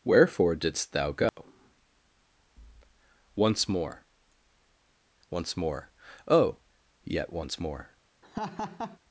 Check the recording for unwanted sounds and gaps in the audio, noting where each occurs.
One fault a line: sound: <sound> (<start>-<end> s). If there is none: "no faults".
sound: dropout (1.3-1.4 s)
sound: laugh (8.2-9.0 s)